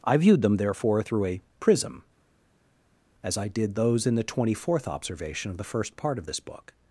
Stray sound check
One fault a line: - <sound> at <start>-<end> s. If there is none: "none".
none